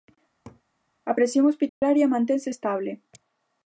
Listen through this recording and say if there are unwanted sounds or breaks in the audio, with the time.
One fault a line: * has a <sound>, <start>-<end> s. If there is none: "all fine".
* has a laugh, 0.4-0.6 s
* has a dropout, 1.7-1.8 s